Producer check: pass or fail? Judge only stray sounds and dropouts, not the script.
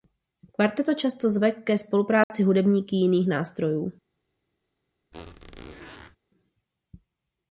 fail